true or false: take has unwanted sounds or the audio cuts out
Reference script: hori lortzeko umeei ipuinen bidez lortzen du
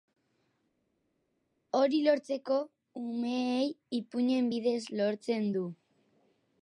false